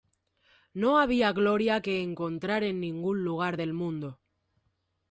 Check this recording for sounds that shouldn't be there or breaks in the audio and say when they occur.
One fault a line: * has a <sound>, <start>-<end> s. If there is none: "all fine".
all fine